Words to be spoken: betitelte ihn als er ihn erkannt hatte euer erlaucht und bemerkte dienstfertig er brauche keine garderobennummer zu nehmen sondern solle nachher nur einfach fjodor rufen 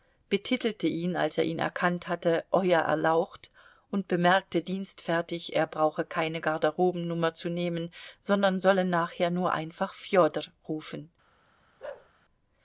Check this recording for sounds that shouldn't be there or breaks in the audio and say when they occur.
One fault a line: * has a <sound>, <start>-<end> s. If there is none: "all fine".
* has a bark, 11.8-12.1 s